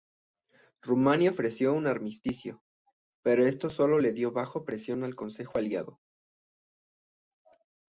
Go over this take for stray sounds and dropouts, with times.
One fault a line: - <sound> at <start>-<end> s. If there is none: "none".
none